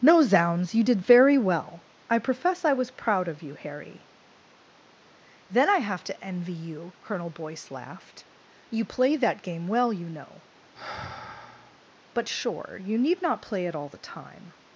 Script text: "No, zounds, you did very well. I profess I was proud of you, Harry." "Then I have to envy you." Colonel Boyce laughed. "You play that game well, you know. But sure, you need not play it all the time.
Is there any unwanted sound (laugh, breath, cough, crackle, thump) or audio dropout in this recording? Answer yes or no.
yes